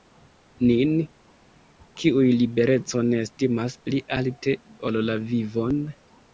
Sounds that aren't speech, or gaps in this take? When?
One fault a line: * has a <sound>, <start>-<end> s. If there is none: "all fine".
all fine